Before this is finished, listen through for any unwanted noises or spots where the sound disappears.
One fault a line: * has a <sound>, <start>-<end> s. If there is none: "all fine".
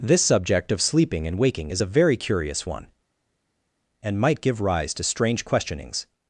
all fine